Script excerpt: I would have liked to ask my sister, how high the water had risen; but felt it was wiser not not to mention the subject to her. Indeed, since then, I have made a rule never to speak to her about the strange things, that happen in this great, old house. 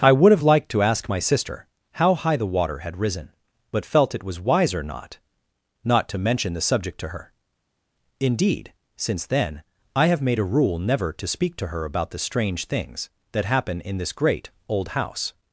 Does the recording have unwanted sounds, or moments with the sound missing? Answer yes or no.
no